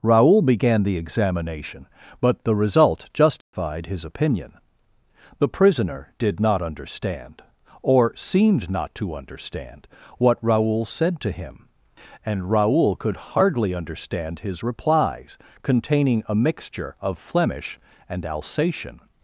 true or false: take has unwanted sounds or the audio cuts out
true